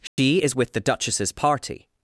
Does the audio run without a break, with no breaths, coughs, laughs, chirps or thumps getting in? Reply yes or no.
no